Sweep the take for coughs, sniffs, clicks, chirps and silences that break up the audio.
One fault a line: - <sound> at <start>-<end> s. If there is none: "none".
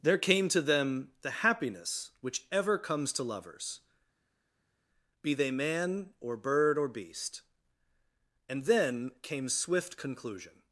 none